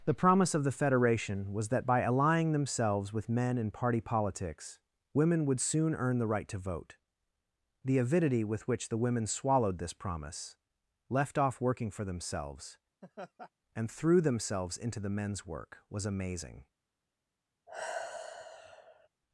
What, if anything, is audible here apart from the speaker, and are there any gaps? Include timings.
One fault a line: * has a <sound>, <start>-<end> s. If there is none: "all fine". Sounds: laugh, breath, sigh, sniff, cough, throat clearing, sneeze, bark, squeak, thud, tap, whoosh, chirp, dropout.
* has a laugh, 13.0-13.5 s
* has a sigh, 17.7-19.1 s